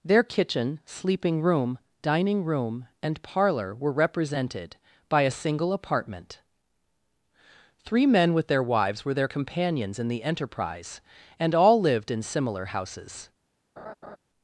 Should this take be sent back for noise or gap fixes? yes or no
yes